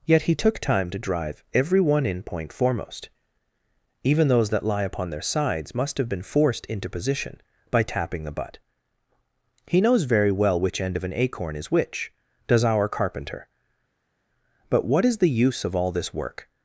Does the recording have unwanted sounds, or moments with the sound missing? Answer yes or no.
no